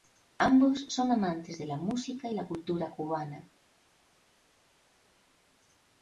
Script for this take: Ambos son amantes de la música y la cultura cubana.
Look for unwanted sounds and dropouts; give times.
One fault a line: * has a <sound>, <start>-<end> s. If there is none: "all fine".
all fine